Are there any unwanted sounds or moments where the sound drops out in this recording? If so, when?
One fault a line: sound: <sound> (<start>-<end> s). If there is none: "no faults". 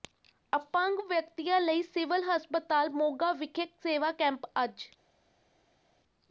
no faults